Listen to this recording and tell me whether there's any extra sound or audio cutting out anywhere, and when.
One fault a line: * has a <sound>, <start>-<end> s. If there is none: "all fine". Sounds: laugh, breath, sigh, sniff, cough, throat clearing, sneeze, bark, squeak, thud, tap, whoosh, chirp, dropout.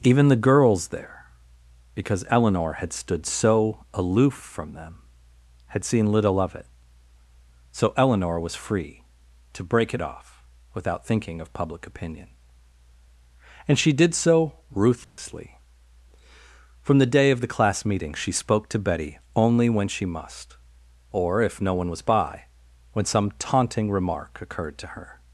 * has a dropout, 15.0-15.2 s